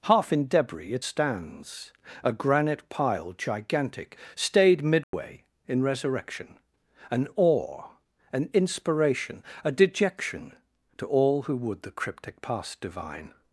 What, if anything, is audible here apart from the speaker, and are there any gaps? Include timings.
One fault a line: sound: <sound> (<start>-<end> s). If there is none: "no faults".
sound: dropout (5.0-5.1 s)